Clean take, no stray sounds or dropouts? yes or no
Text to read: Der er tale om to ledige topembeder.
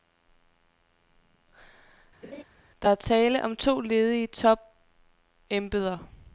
no